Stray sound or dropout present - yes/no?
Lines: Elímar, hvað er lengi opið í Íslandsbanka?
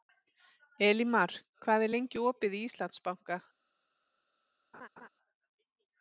yes